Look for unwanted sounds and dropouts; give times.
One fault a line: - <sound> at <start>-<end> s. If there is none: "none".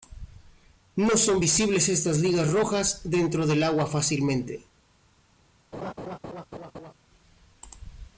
- laugh at 5.7-6.9 s